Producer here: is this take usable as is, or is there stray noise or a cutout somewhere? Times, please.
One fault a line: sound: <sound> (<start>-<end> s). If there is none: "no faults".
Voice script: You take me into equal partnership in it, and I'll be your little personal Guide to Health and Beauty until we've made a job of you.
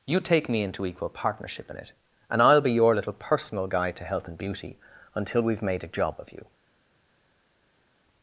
no faults